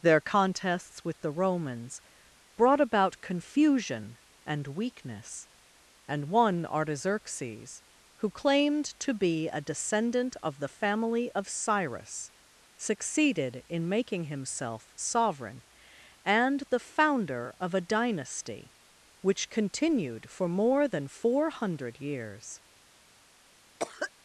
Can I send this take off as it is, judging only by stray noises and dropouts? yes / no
no